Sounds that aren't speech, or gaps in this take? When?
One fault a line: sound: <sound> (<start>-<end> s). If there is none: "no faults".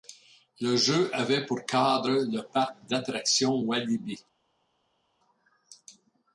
no faults